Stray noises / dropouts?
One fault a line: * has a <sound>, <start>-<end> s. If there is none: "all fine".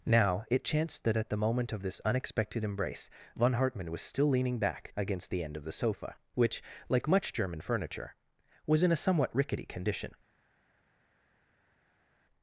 all fine